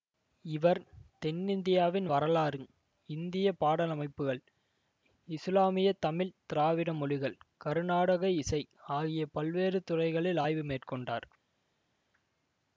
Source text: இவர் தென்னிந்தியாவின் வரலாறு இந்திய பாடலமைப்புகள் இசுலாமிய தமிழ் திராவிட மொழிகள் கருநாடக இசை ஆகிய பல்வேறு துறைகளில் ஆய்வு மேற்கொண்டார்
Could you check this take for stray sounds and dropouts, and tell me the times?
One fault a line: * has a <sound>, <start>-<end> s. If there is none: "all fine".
all fine